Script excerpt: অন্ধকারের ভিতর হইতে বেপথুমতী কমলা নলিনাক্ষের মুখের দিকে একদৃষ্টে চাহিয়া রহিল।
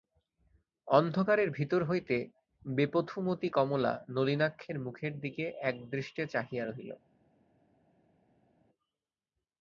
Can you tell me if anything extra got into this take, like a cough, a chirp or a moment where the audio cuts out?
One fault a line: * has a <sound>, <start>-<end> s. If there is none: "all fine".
all fine